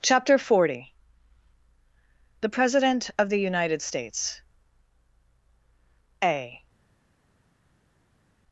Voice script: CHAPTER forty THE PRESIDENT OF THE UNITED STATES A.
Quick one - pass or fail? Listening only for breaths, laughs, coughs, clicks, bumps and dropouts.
pass